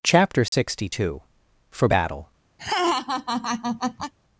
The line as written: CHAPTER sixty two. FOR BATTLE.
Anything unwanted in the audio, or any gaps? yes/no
yes